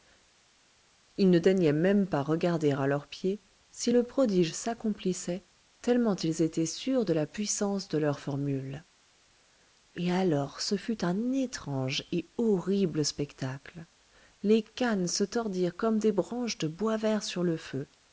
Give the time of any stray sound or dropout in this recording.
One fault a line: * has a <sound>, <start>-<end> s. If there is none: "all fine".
all fine